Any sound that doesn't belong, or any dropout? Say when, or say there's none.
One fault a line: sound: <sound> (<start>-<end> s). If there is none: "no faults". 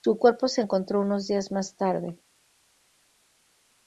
no faults